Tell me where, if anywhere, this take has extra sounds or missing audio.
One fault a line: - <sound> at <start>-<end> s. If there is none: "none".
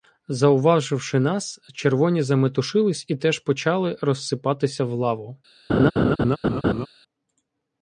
- laugh at 5.7-6.9 s